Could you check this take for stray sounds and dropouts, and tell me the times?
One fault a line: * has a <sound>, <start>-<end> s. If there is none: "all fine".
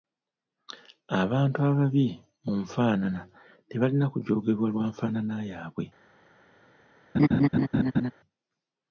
* has a laugh, 7.1-8.1 s